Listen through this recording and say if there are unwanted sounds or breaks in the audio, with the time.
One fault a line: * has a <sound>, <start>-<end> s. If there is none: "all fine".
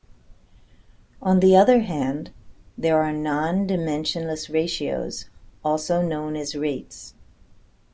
all fine